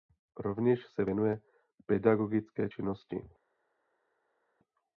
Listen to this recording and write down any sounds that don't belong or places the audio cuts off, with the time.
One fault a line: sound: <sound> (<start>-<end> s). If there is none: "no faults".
no faults